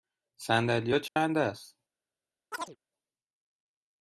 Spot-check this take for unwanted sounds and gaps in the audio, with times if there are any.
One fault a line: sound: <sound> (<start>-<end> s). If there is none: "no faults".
sound: dropout (1.1-1.2 s)
sound: chirp (2.5-2.8 s)